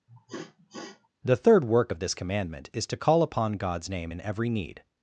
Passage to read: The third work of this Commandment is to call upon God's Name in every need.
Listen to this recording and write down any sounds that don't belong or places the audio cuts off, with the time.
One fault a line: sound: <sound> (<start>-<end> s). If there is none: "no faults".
sound: sniff (0.1-1.1 s)